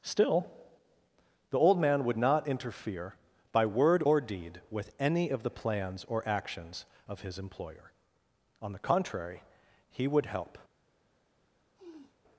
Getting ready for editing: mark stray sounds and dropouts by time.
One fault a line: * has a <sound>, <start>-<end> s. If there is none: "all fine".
* has a sniff, 11.8-12.2 s